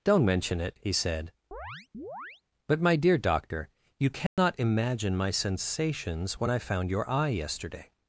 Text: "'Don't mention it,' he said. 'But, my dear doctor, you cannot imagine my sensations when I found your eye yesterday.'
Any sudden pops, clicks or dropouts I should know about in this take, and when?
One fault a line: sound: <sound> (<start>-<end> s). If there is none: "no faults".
sound: chirp (1.5-2.4 s)
sound: dropout (4.3-4.4 s)